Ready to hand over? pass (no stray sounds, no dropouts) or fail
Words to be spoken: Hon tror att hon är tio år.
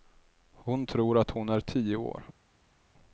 pass